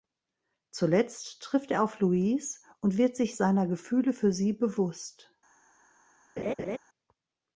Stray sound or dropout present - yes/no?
yes